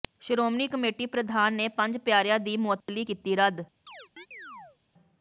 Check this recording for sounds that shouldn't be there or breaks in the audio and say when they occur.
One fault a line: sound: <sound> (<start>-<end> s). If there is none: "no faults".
sound: dropout (2.8-2.9 s)
sound: chirp (3.9-4.8 s)